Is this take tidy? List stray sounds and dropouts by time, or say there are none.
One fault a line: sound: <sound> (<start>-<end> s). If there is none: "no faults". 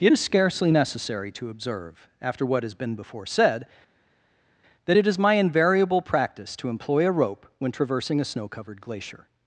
no faults